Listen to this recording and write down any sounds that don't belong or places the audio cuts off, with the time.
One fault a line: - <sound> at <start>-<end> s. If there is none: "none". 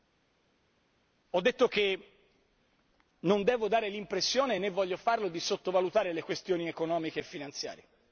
none